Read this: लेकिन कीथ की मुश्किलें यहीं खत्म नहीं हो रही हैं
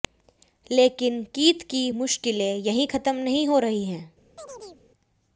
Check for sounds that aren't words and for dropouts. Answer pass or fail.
fail